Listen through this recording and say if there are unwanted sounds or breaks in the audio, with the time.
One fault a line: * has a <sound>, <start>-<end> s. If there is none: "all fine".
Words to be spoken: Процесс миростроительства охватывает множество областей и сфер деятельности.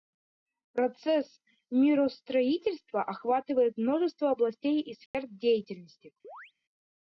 * has a dropout, 5.1-5.1 s
* has a chirp, 6.2-6.5 s